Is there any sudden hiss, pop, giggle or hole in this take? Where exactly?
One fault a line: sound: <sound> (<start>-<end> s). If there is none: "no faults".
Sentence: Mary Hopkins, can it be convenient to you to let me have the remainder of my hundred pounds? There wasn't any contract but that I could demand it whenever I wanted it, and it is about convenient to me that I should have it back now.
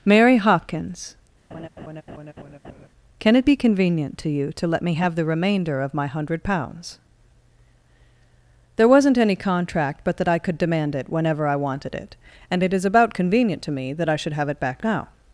sound: laugh (1.5-2.9 s)